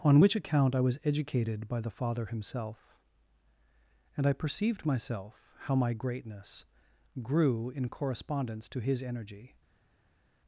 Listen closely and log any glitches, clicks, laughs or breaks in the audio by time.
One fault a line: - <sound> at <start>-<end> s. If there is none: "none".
none